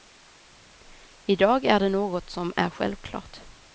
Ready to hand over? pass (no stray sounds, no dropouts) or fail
pass